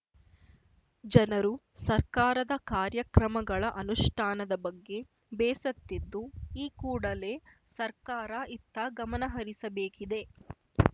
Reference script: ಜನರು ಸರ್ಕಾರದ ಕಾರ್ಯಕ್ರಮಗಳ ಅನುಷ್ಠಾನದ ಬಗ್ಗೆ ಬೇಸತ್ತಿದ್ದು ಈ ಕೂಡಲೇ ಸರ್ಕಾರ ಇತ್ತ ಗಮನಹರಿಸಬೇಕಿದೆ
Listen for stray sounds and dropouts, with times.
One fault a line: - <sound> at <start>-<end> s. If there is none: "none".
none